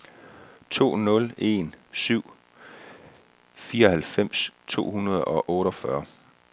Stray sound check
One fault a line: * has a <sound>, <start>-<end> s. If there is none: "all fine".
all fine